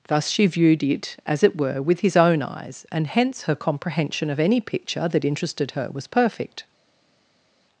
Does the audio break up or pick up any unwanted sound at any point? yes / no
no